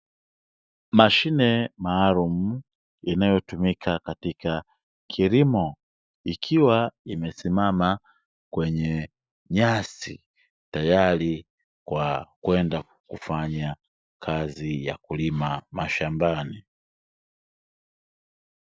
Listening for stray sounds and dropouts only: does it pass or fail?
pass